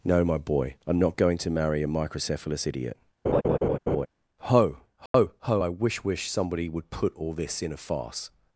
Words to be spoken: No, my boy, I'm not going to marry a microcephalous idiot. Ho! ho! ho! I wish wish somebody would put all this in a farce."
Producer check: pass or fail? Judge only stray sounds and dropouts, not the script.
fail